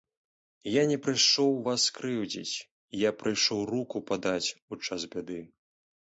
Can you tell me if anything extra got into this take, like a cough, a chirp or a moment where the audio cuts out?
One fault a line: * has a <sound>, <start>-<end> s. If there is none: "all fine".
all fine